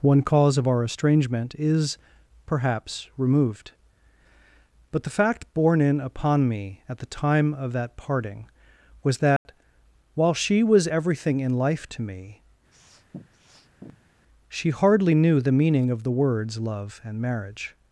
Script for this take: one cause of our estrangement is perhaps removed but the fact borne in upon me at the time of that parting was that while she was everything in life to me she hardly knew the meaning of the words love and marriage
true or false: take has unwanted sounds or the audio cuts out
true